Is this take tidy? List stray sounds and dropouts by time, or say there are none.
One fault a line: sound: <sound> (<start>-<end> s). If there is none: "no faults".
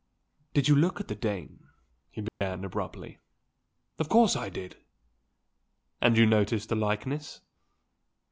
sound: dropout (2.3-2.4 s)